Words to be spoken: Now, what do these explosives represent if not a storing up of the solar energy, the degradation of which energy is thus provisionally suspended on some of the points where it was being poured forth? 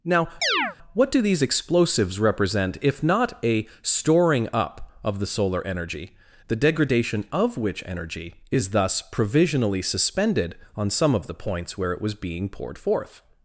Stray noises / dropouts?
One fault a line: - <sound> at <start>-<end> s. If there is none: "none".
- chirp at 0.4-0.8 s